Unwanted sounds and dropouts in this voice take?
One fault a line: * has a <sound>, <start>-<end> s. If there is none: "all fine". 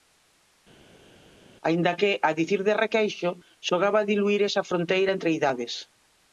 all fine